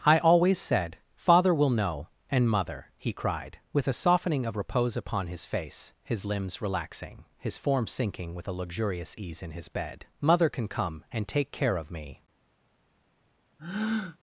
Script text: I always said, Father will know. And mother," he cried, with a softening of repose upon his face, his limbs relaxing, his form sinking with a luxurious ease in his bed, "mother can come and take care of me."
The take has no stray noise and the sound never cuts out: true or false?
false